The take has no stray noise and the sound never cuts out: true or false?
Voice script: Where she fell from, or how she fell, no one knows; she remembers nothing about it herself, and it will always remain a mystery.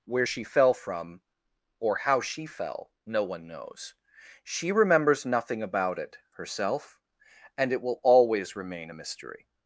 true